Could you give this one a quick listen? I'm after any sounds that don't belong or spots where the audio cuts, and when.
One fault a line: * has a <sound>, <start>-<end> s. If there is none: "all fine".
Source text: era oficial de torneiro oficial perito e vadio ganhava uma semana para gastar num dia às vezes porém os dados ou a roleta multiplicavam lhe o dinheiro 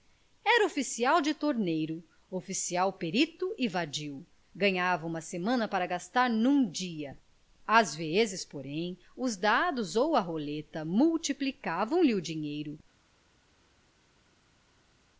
all fine